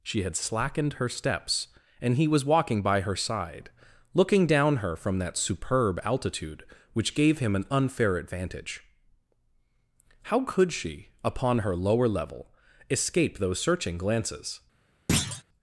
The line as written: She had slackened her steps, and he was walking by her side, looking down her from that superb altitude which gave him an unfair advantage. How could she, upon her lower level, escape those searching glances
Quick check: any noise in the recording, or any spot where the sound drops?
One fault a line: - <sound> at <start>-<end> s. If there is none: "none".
- thud at 15.1-15.4 s